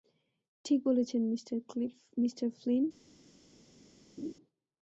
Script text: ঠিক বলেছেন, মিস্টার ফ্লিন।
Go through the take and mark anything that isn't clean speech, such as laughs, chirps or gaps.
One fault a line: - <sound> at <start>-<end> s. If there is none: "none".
- laugh at 4.2-4.3 s